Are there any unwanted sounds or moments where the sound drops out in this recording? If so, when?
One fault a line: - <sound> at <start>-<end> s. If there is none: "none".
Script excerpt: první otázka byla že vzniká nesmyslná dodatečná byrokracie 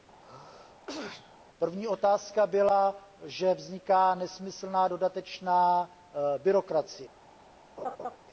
- sneeze at 0.2-1.4 s
- laugh at 7.8-8.2 s